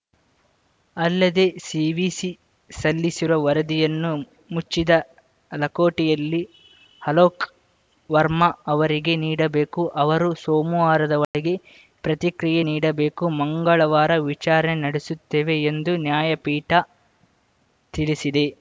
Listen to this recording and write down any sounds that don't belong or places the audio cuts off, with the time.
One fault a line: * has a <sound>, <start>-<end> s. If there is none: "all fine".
* has a dropout, 11.2-11.3 s